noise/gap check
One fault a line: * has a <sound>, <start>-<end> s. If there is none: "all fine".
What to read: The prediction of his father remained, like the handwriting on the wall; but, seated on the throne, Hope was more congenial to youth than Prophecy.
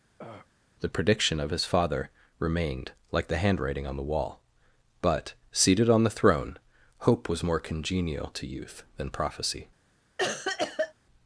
* has a throat clearing, 0.2-0.5 s
* has a cough, 10.2-10.9 s